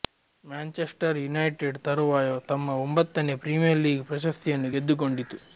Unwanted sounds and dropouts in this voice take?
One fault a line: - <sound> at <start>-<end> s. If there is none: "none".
none